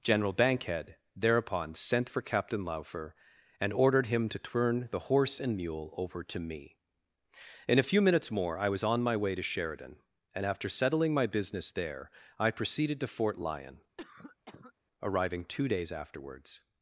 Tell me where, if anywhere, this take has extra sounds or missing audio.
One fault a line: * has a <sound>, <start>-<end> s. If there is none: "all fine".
* has a cough, 14.0-14.7 s